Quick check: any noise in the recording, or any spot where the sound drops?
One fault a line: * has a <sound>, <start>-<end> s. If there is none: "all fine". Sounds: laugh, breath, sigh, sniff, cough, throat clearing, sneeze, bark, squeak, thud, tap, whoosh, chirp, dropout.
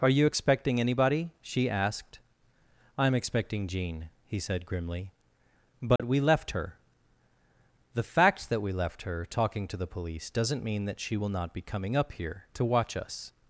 * has a dropout, 6.0-6.0 s